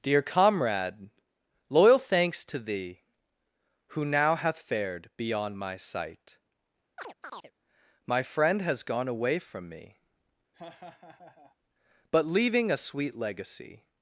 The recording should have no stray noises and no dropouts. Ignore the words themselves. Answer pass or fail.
fail